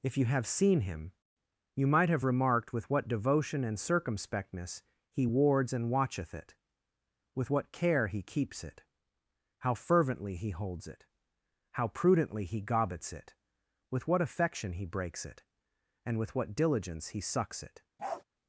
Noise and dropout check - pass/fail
fail